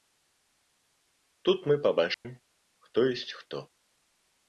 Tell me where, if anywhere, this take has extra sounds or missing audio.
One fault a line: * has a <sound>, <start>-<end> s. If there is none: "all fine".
* has a dropout, 2.1-2.2 s